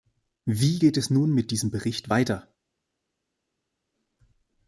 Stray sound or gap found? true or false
false